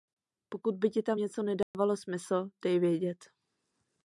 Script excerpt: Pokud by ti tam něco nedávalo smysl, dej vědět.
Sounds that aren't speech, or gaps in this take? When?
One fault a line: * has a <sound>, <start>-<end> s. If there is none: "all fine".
* has a dropout, 1.6-1.7 s